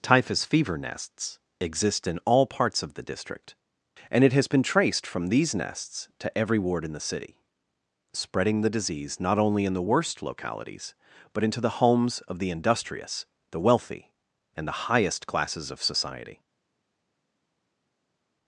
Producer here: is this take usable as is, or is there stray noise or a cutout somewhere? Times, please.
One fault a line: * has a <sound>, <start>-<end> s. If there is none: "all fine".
all fine